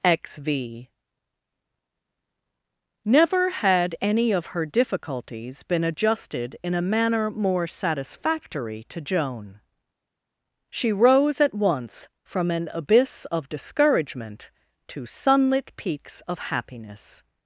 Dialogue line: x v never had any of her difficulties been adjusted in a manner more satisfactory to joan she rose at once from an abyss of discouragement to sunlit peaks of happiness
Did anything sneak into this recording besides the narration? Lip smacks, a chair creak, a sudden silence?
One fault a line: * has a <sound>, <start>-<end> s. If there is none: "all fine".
all fine